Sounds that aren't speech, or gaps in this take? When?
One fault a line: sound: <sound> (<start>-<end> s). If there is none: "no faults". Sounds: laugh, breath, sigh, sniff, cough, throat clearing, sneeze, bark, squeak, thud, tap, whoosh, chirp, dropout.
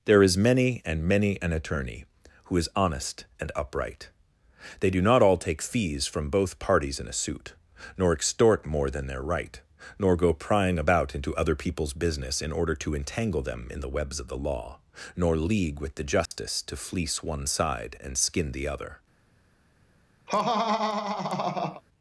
sound: dropout (16.3-16.3 s)
sound: laugh (20.3-21.8 s)